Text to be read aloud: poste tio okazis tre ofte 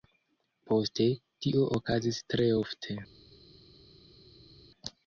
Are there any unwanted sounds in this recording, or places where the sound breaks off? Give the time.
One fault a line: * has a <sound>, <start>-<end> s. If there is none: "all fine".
all fine